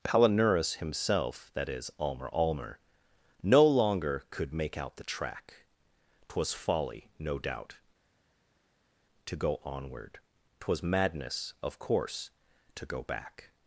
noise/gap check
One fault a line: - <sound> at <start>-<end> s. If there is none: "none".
none